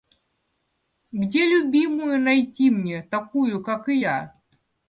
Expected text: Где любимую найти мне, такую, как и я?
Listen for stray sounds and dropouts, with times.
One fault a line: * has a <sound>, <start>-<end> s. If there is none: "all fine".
all fine